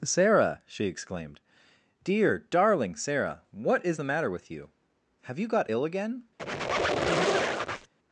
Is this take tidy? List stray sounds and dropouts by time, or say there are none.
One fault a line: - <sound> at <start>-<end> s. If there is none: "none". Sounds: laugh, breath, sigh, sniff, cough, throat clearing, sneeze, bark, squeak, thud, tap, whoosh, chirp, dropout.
- squeak at 6.4-7.9 s